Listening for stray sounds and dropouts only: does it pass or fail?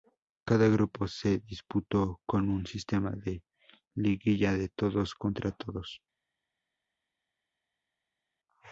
pass